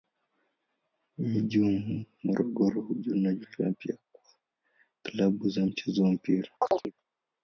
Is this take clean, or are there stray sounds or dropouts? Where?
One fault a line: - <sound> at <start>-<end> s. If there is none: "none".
- chirp at 6.6-6.9 s